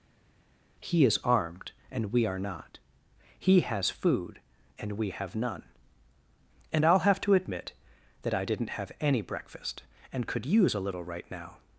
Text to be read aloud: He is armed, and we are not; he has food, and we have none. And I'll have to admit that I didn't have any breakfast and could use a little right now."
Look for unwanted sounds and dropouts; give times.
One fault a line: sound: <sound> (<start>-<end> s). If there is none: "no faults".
no faults